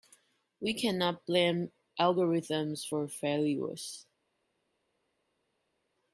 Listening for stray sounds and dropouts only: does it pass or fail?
pass